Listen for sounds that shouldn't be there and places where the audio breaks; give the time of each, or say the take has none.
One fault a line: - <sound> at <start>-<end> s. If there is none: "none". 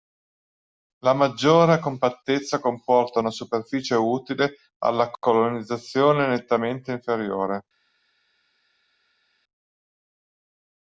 none